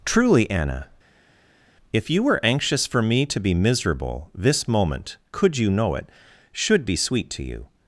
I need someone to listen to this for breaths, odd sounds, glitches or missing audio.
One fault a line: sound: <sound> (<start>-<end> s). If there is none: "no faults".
no faults